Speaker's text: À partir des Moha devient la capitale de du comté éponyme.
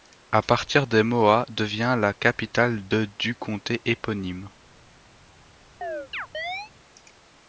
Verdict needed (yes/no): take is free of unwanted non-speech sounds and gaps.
no